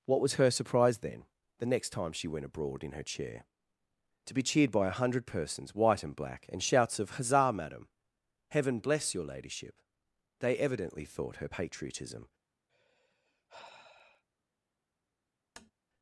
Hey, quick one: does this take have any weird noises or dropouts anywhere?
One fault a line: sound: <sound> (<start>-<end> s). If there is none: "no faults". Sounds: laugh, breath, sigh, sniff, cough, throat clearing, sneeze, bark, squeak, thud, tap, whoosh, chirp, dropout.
sound: sigh (12.7-14.2 s)
sound: tap (15.6-15.7 s)